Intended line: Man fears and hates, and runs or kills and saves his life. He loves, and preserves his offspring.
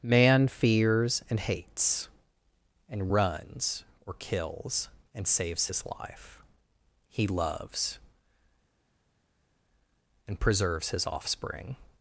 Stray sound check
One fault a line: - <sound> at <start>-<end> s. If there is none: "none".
none